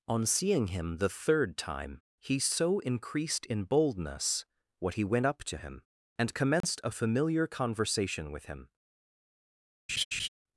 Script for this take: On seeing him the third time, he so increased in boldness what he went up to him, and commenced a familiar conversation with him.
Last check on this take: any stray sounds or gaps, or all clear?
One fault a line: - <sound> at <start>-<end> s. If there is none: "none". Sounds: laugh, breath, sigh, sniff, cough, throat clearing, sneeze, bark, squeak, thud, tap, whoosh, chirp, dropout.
- dropout at 6.6-6.6 s
- laugh at 9.9-10.3 s